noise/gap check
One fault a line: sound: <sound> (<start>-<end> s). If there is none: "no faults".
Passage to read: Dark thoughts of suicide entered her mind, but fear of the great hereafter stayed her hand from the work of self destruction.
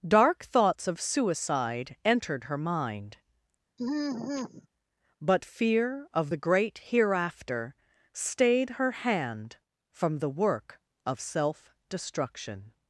sound: sigh (3.8-4.7 s)